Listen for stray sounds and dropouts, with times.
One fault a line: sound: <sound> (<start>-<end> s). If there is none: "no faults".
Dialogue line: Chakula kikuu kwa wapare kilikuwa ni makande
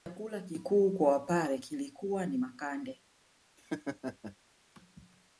sound: laugh (3.6-4.4 s)